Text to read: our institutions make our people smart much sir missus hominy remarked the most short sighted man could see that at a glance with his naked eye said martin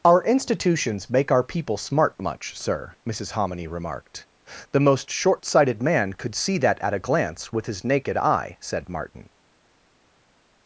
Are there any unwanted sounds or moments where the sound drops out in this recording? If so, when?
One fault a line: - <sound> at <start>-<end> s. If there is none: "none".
none